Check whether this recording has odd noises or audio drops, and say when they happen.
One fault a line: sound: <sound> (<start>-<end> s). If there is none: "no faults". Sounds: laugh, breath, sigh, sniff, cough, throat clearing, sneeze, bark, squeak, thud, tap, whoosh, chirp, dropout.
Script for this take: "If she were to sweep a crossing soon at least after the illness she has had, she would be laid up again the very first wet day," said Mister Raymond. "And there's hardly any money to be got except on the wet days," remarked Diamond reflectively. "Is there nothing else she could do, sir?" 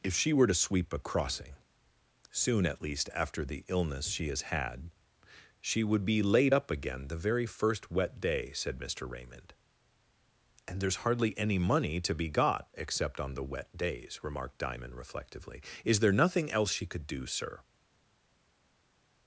no faults